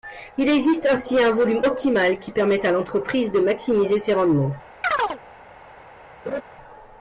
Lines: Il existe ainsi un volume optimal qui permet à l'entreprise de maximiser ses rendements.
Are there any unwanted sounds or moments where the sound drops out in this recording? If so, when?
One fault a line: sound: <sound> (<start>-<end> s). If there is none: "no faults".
sound: chirp (4.8-5.2 s)
sound: laugh (6.2-6.4 s)